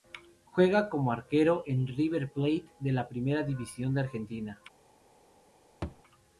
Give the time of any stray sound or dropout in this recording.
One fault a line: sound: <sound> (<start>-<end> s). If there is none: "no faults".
sound: thud (5.8-6.0 s)